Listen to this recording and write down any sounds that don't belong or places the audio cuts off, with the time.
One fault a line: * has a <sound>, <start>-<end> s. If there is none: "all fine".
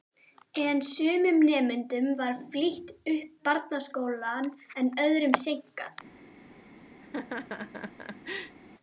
* has a laugh, 7.0-8.6 s